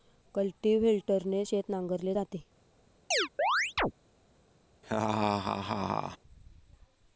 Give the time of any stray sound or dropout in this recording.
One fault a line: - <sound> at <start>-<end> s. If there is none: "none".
- chirp at 3.1-3.9 s
- laugh at 4.8-6.2 s